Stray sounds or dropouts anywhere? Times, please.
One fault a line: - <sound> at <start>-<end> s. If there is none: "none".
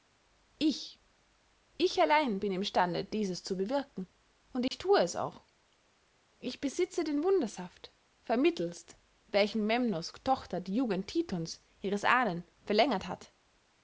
- dropout at 4.7-4.7 s